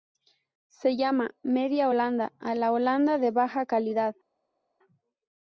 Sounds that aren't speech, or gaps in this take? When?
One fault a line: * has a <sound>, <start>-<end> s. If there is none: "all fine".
all fine